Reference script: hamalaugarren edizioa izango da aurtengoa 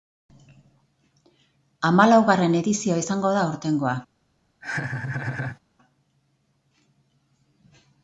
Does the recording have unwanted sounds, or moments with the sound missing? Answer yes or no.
yes